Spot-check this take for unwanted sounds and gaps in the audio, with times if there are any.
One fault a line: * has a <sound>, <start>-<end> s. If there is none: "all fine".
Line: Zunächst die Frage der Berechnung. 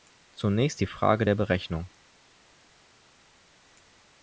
all fine